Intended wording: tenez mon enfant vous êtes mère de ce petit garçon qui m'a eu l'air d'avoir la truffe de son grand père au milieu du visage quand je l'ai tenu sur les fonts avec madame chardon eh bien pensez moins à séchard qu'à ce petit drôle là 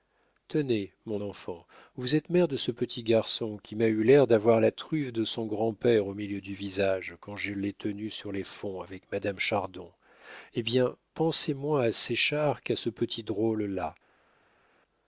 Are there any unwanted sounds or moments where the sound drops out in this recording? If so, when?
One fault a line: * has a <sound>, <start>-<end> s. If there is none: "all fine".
all fine